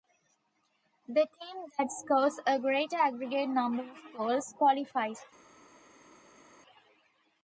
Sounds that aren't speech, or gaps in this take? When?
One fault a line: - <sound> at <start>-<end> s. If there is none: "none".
none